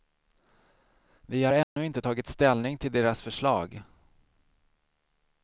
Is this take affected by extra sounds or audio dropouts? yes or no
yes